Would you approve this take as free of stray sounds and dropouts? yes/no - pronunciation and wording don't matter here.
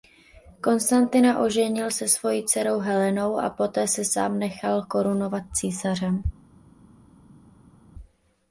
yes